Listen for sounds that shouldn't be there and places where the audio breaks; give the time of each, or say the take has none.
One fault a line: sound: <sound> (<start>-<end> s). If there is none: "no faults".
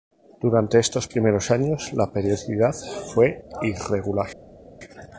no faults